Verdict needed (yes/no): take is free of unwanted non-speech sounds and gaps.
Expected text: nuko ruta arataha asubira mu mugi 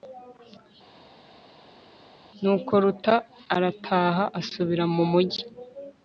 yes